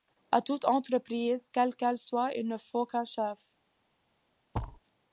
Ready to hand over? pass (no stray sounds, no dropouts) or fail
fail